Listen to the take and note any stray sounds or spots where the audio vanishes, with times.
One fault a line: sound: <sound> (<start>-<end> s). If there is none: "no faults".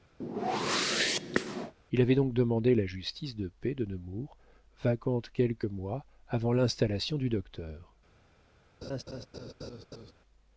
sound: whoosh (0.2-1.7 s)
sound: laugh (8.8-10.1 s)